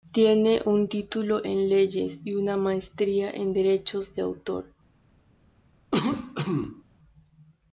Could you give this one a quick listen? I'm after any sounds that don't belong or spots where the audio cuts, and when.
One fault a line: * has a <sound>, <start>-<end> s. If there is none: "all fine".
* has a cough, 5.9-6.8 s